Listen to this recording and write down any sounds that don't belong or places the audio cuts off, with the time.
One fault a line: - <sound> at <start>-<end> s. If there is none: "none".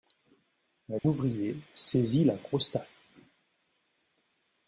- dropout at 1.0-1.0 s